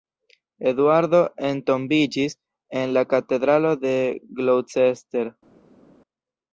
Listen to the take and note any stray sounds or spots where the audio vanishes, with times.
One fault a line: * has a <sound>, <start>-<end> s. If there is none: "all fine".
all fine